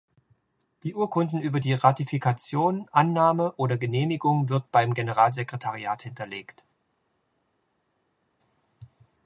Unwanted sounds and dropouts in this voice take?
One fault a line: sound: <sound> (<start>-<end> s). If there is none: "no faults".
no faults